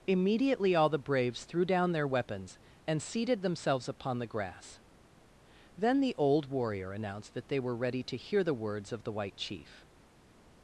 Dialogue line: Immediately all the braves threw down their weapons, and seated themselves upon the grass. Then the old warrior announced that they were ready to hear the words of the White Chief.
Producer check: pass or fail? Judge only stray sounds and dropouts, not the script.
pass